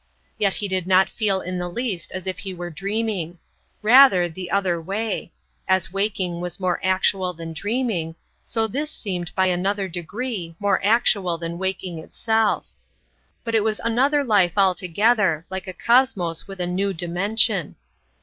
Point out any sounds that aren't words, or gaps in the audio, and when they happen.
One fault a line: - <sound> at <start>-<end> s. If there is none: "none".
none